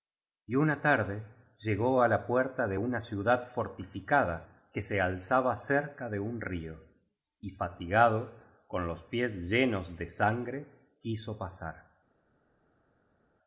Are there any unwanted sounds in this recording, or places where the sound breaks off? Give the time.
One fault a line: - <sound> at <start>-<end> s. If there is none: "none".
none